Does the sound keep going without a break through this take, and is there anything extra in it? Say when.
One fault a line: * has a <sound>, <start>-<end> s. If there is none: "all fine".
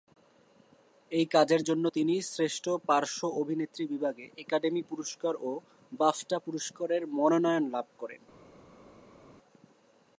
all fine